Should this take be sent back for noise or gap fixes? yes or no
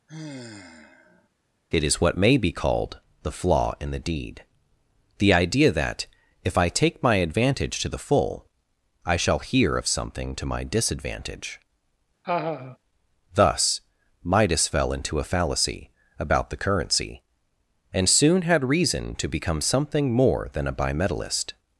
yes